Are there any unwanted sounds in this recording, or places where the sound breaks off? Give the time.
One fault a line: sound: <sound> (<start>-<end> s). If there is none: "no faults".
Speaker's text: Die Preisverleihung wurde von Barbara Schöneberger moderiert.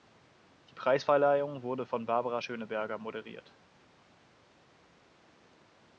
no faults